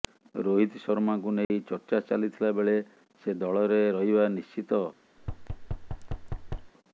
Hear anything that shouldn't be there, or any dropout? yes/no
yes